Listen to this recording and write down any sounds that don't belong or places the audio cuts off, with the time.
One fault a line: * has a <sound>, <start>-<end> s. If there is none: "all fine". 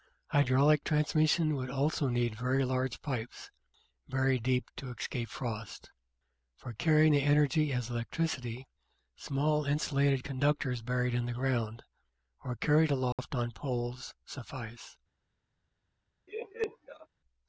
* has a dropout, 13.1-13.2 s
* has a laugh, 16.3-17.1 s